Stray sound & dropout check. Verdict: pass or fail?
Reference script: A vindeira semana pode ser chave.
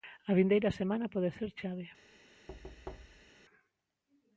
fail